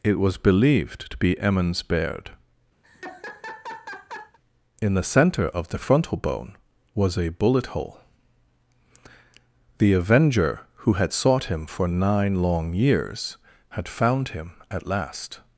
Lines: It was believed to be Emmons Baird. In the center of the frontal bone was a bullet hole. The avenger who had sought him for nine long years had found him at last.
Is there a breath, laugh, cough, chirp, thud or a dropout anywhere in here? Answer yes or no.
yes